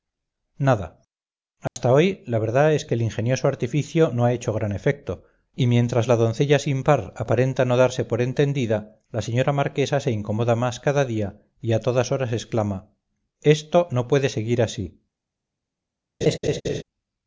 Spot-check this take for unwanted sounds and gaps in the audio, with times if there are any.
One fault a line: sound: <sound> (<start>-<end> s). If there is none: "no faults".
sound: dropout (1.7-1.8 s)
sound: laugh (16.2-16.8 s)